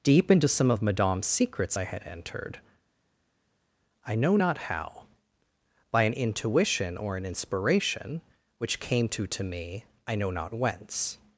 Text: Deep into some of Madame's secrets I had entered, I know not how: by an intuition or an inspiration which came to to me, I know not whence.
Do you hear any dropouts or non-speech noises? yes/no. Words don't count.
no